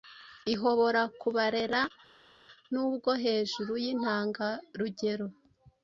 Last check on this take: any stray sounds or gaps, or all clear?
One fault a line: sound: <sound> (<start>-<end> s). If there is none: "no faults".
no faults